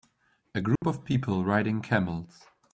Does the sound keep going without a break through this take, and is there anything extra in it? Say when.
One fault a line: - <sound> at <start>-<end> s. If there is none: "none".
- dropout at 0.8-0.8 s